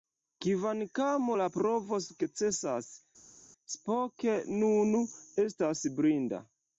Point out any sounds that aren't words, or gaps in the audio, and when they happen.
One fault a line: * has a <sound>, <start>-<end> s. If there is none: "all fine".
all fine